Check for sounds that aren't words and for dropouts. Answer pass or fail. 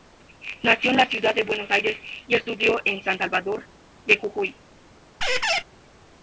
fail